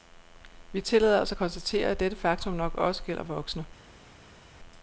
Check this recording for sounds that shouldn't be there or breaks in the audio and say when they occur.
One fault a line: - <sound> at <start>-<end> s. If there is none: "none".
none